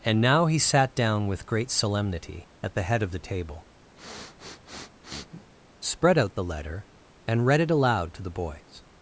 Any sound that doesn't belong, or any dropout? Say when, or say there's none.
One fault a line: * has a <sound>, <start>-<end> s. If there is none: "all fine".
* has a sniff, 4.0-5.5 s